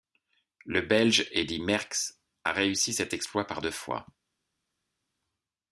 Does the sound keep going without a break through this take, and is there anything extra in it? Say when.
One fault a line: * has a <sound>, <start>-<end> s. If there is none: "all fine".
all fine